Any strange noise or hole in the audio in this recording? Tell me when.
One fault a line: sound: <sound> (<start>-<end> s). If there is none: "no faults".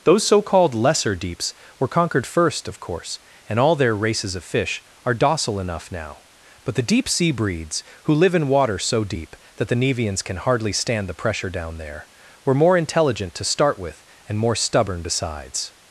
no faults